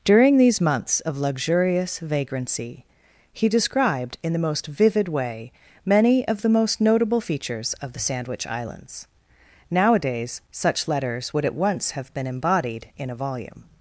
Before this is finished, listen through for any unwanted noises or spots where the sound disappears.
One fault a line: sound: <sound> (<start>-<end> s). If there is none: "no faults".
no faults